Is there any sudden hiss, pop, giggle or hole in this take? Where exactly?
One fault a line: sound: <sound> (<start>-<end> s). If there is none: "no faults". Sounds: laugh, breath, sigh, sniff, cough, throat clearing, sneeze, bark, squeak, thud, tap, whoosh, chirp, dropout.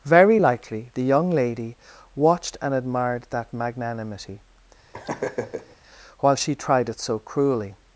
sound: laugh (4.9-5.8 s)